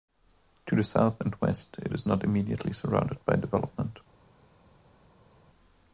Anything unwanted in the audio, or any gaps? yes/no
no